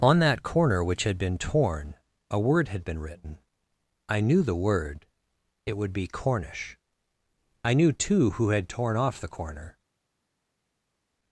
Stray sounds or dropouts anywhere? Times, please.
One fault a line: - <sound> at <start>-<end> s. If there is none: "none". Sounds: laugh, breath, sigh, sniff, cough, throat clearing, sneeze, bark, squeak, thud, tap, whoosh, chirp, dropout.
none